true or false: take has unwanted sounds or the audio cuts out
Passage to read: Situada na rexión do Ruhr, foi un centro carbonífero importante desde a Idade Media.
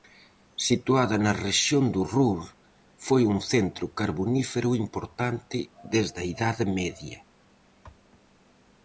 false